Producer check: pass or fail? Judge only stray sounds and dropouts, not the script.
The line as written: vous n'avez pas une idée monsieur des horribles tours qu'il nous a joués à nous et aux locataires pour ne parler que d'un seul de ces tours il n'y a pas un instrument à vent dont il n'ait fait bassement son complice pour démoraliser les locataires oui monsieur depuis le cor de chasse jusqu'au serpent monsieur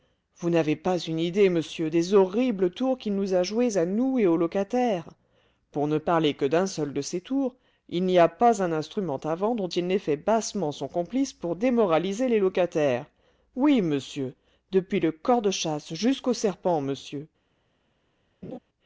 fail